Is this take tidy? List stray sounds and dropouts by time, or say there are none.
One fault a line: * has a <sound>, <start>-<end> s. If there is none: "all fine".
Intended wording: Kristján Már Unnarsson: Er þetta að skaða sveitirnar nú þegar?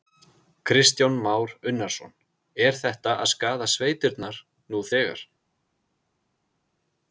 all fine